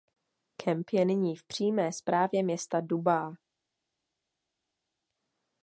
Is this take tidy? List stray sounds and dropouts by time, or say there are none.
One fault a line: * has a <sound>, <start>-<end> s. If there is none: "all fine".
all fine